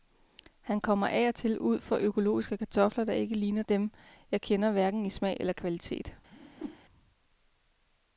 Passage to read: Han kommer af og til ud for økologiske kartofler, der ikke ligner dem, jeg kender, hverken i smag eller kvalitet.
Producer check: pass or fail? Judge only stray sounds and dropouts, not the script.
fail